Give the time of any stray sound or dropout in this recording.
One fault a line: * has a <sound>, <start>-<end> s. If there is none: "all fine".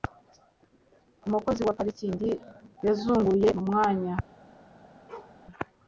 * has a bark, 5.1-5.4 s